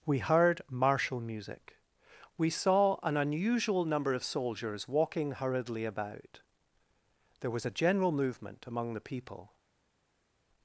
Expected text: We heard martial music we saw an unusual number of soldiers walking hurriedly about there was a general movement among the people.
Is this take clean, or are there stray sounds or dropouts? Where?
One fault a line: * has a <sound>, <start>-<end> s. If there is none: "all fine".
all fine